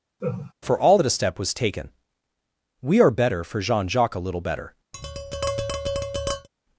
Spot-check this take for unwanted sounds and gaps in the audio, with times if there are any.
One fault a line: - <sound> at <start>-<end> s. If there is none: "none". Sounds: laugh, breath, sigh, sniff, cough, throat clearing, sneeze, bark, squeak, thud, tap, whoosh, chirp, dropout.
- laugh at 0.2-0.5 s
- tap at 4.9-6.5 s